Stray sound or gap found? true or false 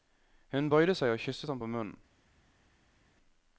false